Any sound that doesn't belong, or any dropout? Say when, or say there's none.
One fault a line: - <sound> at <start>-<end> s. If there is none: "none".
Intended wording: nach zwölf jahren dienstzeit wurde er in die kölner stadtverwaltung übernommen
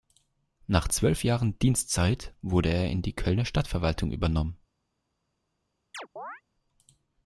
- chirp at 5.9-6.4 s